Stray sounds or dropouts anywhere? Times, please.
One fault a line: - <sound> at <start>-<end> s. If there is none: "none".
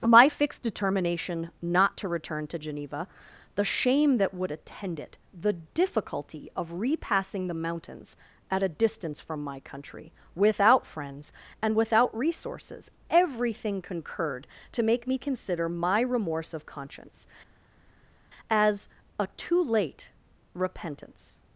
none